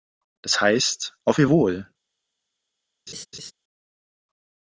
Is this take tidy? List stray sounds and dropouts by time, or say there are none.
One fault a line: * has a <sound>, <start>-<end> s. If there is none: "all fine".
* has a laugh, 3.1-3.5 s